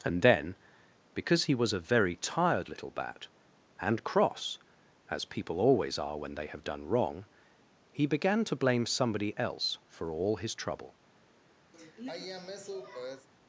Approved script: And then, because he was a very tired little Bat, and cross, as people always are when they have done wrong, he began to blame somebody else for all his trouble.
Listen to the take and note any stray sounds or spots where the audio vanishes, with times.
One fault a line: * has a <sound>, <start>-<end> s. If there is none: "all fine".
* has a sigh, 11.7-13.3 s